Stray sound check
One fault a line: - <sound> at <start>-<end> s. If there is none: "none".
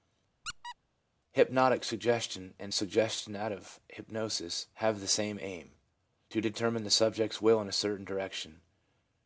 - squeak at 0.4-0.8 s